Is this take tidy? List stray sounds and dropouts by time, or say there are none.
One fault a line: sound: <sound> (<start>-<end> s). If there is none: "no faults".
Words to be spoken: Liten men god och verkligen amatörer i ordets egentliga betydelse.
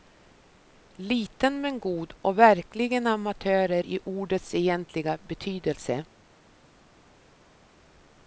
no faults